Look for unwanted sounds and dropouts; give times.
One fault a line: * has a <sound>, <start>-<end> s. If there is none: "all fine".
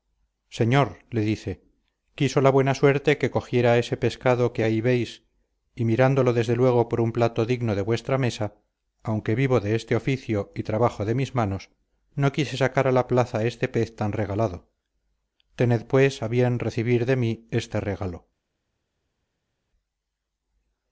all fine